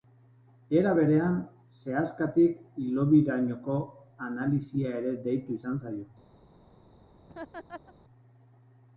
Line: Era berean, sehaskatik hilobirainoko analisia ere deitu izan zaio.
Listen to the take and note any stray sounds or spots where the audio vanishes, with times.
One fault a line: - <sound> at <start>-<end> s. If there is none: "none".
- laugh at 7.3-7.9 s